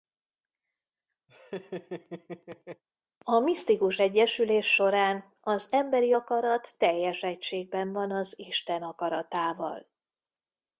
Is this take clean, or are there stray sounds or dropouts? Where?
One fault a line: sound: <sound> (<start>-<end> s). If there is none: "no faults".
sound: laugh (1.3-2.8 s)